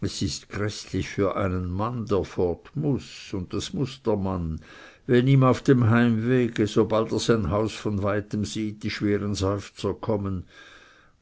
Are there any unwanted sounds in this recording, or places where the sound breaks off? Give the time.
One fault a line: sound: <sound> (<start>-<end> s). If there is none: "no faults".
no faults